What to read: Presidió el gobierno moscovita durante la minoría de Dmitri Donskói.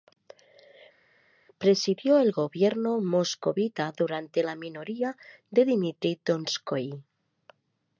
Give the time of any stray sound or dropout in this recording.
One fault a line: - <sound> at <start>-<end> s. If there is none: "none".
none